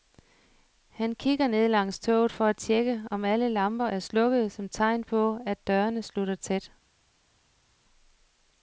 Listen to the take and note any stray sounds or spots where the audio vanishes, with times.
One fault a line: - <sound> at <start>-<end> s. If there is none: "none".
none